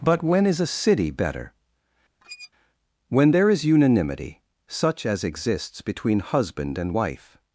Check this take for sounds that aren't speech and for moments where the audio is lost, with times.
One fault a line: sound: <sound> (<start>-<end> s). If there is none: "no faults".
sound: squeak (2.2-2.5 s)